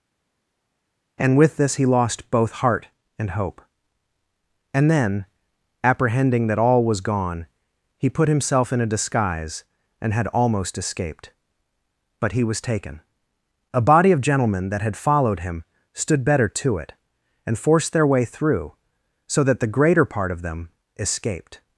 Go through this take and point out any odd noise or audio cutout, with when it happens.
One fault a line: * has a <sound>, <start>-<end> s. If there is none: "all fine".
all fine